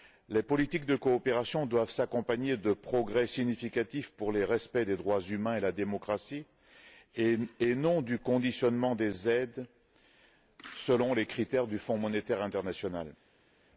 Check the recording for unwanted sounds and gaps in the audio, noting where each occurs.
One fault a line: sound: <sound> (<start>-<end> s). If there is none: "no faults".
no faults